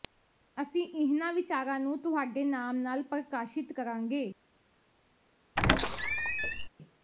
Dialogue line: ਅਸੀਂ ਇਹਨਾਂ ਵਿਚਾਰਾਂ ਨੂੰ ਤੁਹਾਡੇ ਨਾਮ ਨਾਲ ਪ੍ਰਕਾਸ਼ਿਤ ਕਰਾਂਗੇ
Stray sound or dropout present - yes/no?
yes